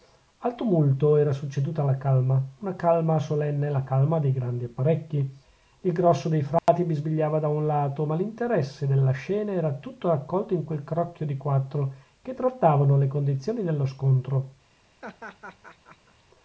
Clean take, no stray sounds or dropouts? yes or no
no